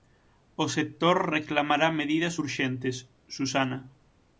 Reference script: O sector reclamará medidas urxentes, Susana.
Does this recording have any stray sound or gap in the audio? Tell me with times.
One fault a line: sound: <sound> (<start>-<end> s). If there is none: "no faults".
no faults